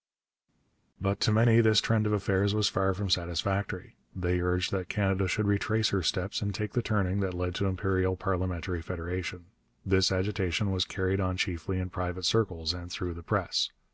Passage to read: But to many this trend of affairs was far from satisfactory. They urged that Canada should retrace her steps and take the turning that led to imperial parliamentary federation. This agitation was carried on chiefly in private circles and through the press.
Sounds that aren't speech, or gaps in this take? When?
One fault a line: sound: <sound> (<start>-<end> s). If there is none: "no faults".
no faults